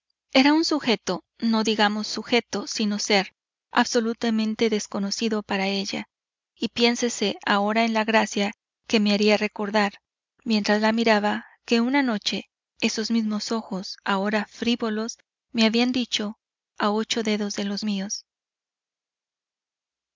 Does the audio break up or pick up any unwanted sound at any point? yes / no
no